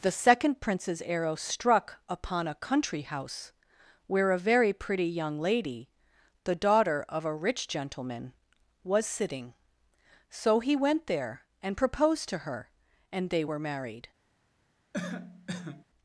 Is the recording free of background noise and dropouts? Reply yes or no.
no